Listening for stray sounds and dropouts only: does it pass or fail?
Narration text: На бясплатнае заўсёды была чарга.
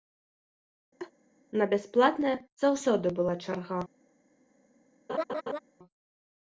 fail